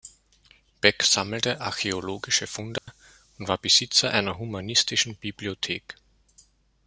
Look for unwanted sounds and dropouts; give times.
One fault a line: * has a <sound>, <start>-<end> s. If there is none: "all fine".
* has a dropout, 2.8-2.9 s